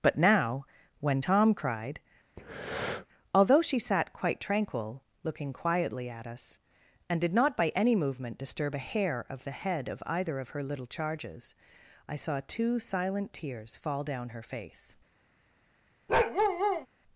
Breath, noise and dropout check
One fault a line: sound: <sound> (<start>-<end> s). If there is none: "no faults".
sound: breath (2.4-3.1 s)
sound: bark (16.1-16.9 s)